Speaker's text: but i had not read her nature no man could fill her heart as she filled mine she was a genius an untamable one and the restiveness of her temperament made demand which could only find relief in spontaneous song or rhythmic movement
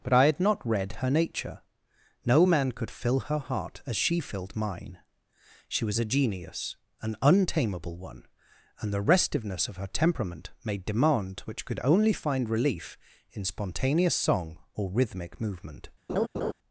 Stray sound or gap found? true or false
true